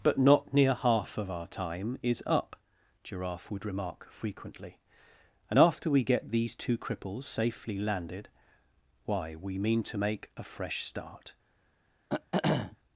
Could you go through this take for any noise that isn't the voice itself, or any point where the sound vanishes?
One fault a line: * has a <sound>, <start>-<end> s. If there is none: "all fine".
* has a throat clearing, 12.1-12.8 s